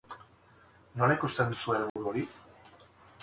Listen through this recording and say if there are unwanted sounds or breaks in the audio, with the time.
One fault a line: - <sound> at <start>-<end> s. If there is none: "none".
- dropout at 1.9-2.0 s